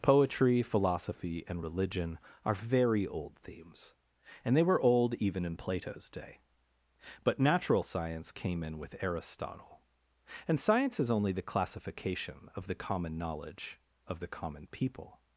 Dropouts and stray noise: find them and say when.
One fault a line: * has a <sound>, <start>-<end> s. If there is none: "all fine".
all fine